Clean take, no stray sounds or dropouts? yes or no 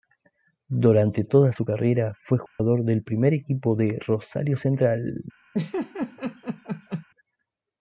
no